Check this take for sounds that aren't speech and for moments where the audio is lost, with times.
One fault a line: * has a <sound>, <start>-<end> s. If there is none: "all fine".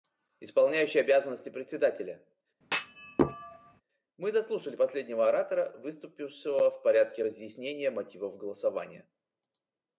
* has a thud, 2.6-3.8 s